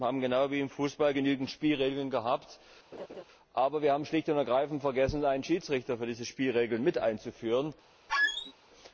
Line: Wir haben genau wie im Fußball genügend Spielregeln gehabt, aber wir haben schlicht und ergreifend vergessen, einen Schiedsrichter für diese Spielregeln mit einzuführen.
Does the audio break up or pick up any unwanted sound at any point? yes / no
yes